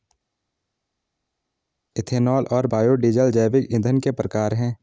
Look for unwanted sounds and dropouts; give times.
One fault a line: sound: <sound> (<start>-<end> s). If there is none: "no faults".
no faults